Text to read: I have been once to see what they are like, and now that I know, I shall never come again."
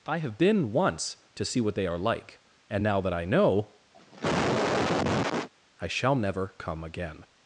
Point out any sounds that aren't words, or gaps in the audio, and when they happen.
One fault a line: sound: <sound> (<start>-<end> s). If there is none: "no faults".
sound: cough (3.9-5.5 s)